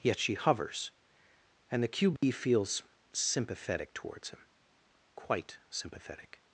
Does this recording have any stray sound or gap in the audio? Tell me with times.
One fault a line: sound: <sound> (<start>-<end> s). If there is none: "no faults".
sound: dropout (2.2-2.2 s)